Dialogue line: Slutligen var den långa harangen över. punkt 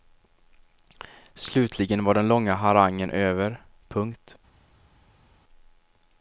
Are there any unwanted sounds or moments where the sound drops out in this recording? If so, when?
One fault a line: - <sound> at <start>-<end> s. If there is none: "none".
none